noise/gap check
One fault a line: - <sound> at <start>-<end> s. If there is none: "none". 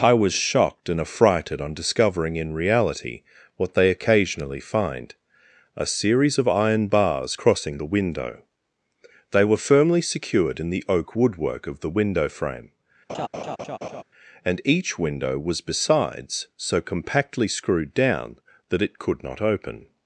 - laugh at 13.1-14.0 s